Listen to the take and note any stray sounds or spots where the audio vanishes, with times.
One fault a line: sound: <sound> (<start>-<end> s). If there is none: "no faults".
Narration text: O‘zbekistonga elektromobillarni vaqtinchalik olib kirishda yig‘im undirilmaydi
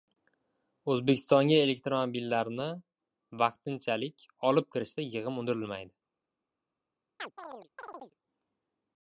sound: chirp (7.2-8.1 s)